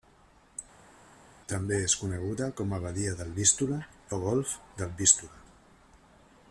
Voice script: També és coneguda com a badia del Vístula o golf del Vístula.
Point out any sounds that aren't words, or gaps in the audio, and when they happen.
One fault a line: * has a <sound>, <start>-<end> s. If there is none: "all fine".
all fine